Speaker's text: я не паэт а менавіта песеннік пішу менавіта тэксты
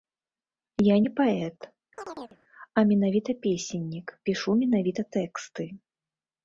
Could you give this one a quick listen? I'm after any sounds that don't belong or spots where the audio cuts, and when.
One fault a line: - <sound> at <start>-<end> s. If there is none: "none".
- chirp at 2.0-2.4 s